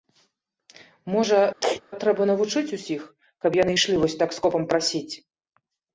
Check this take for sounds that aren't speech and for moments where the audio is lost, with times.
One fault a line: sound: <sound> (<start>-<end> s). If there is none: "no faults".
sound: sneeze (1.6-1.8 s)